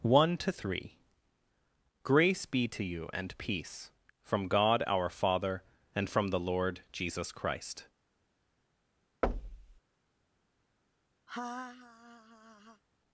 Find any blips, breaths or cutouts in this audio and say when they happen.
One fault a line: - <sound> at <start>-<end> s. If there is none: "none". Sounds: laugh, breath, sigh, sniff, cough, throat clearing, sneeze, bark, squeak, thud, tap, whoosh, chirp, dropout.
- thud at 9.2-9.8 s
- laugh at 11.3-12.8 s